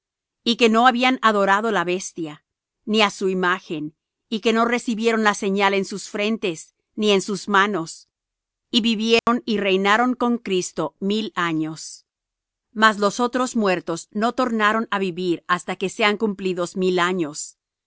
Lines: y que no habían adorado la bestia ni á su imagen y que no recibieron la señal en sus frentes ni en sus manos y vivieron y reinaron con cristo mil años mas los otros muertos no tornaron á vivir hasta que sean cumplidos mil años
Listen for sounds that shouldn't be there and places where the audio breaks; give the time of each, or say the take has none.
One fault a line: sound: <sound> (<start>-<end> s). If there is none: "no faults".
sound: dropout (9.2-9.3 s)